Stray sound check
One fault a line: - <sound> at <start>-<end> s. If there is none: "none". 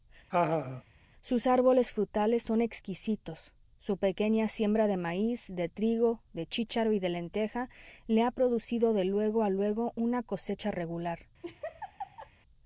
- laugh at 0.3-0.8 s
- laugh at 11.4-12.3 s